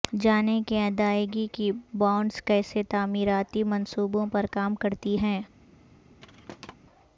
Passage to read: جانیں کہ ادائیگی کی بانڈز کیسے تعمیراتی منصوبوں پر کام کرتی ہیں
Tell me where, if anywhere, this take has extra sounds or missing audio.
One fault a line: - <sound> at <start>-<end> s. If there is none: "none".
- thud at 6.2-6.7 s